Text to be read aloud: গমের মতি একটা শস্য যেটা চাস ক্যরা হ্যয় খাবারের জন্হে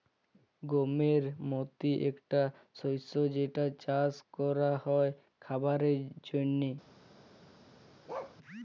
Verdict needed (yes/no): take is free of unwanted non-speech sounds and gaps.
no